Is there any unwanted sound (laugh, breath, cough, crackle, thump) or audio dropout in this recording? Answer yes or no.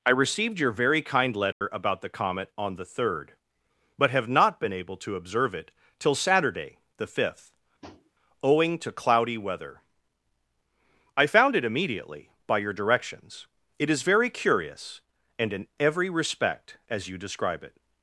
yes